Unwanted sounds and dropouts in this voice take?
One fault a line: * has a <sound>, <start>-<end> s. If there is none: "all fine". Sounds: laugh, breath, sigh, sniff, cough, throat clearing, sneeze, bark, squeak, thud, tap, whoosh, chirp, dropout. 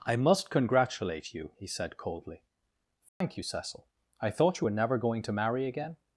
* has a dropout, 3.1-3.2 s